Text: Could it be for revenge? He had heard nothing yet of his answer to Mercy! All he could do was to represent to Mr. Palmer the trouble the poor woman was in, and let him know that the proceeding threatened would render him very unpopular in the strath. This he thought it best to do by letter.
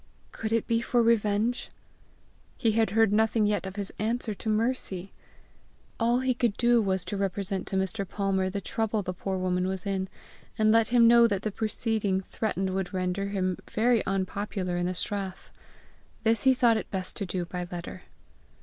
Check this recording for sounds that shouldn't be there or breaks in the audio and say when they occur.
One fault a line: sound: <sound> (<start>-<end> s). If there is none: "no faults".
no faults